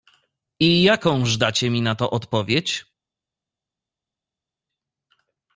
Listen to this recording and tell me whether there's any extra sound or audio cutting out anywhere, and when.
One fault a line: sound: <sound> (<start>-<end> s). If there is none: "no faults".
no faults